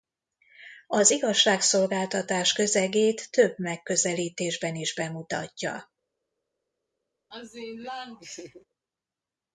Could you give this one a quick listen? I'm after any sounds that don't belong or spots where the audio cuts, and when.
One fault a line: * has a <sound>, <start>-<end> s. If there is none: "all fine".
* has a laugh, 7.3-8.7 s